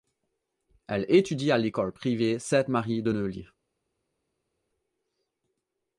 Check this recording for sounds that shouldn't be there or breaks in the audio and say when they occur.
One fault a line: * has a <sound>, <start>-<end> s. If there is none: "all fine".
all fine